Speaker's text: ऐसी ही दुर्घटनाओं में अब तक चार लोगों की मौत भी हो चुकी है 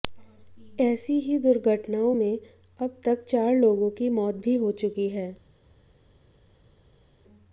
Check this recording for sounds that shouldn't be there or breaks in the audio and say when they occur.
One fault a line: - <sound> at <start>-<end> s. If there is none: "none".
none